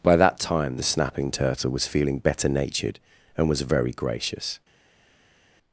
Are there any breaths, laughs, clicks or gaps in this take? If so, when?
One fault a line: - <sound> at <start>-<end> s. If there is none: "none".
none